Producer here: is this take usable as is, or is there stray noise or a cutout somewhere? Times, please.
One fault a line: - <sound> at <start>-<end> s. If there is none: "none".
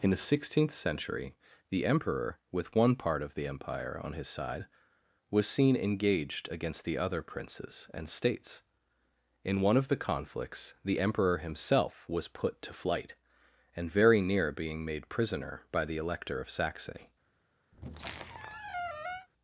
- squeak at 17.7-19.3 s